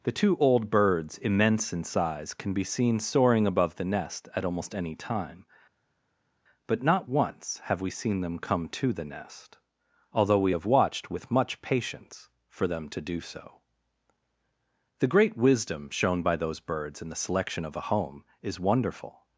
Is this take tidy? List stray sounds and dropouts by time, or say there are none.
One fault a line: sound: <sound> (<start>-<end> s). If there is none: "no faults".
no faults